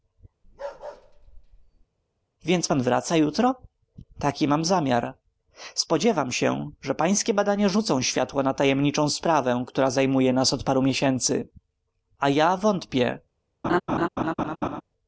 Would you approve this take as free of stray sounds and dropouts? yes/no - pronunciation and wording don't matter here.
no